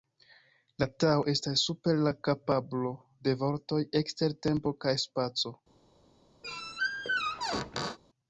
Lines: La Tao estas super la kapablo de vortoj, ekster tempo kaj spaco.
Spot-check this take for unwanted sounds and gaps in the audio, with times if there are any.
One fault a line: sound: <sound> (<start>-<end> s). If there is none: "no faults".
sound: squeak (6.4-8.0 s)